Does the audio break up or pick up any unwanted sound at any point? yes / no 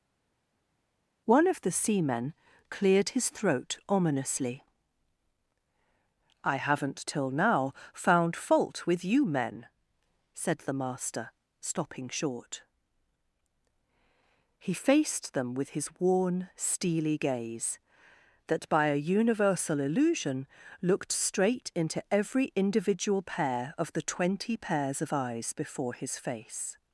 no